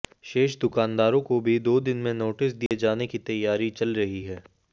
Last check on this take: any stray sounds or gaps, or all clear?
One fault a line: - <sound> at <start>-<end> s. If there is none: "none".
- dropout at 2.7-2.7 s